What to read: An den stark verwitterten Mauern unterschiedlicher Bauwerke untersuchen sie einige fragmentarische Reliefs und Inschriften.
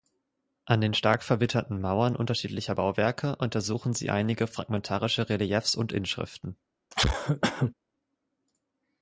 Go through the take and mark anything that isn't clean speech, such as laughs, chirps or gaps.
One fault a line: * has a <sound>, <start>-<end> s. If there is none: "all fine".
* has a cough, 6.9-7.7 s